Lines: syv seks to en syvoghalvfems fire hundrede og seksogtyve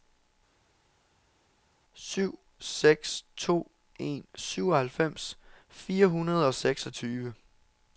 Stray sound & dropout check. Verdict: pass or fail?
pass